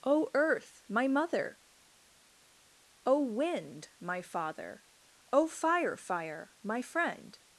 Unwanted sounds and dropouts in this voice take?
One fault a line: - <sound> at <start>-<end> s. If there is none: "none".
none